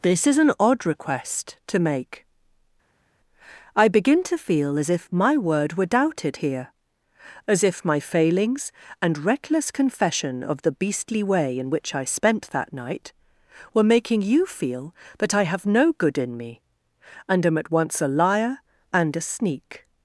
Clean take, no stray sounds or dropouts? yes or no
yes